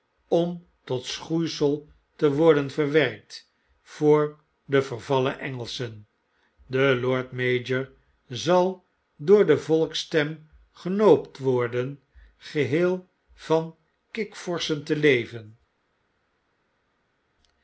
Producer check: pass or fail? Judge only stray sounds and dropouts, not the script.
pass